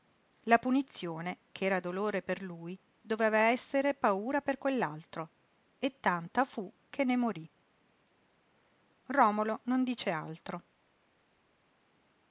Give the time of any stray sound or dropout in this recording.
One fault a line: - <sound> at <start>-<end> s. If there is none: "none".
none